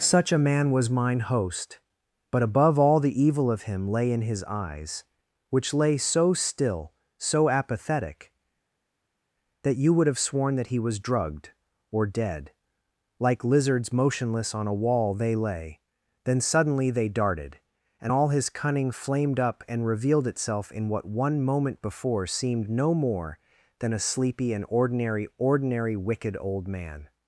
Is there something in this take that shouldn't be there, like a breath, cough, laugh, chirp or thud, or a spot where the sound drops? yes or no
no